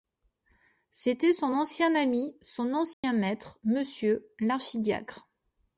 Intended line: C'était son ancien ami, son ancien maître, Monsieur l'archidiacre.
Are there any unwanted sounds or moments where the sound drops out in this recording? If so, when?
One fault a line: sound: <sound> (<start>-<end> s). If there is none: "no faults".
sound: dropout (2.9-3.0 s)